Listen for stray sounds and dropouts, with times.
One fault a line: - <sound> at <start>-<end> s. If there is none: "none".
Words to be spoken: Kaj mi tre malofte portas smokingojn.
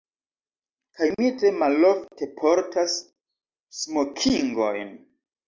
none